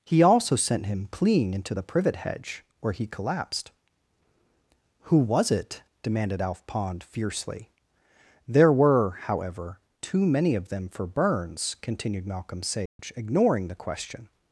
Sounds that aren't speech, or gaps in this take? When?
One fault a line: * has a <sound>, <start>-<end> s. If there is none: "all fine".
* has a dropout, 12.9-13.0 s